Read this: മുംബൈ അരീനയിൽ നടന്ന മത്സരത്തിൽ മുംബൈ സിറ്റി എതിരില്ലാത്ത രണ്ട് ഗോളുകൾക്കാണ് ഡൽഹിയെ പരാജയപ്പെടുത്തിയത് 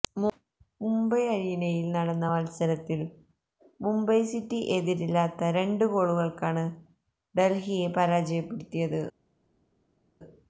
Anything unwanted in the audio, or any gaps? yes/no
no